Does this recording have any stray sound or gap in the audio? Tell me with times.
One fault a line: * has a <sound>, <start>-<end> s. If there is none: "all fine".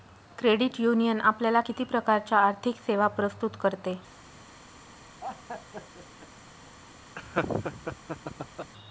* has a laugh, 5.2-6.3 s
* has a laugh, 7.2-8.7 s